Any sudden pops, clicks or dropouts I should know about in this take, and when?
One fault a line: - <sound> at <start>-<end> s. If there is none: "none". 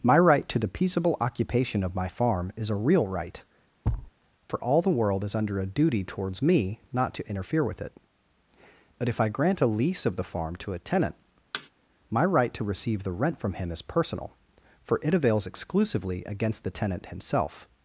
- thud at 3.8-4.1 s
- thud at 11.5-11.7 s